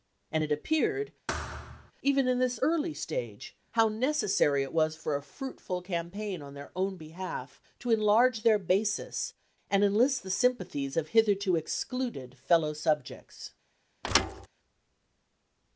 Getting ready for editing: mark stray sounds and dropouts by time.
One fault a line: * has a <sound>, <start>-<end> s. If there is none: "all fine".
* has a thud, 1.3-1.9 s
* has a thud, 14.0-14.5 s